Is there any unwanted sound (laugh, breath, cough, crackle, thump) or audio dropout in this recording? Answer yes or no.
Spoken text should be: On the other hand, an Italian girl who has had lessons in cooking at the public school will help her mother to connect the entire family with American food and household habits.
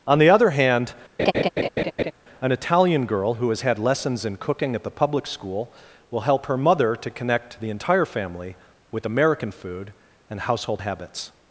yes